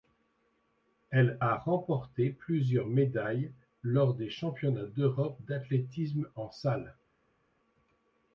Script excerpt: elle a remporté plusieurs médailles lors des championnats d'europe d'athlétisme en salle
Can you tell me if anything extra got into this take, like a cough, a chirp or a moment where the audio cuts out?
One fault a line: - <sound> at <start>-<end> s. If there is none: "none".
none